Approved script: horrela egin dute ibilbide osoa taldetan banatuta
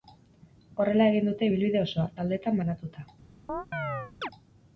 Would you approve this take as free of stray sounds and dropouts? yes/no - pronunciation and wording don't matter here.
no